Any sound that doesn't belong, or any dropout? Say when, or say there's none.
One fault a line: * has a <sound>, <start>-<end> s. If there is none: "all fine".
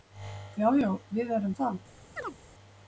* has a chirp, 2.2-2.4 s